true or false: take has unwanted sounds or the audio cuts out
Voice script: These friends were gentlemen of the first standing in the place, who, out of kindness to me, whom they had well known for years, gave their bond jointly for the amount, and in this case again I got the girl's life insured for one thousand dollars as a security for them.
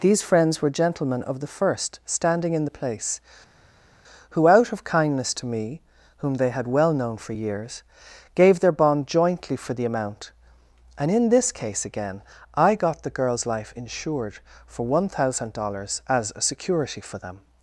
false